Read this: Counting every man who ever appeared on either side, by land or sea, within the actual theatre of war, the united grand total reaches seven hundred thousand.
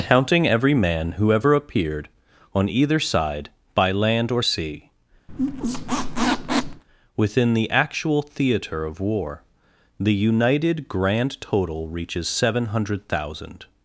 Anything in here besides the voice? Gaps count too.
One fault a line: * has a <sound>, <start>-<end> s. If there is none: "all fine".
* has a squeak, 5.3-6.8 s